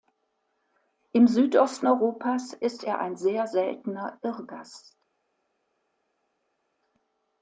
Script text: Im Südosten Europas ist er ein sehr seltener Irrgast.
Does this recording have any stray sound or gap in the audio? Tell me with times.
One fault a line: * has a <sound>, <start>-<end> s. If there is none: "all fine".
all fine